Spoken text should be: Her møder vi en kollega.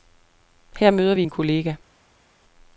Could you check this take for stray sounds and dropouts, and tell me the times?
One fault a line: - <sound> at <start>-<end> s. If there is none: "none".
none